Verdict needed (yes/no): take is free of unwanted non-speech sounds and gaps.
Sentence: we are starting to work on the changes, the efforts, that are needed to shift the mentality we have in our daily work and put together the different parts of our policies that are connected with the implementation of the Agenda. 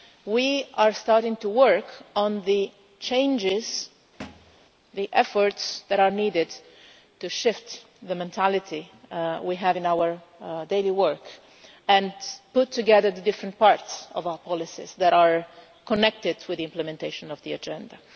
no